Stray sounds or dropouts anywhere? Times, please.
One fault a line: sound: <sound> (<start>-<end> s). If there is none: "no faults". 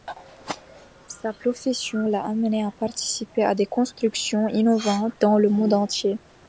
no faults